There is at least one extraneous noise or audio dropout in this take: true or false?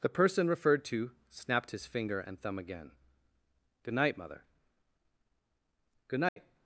true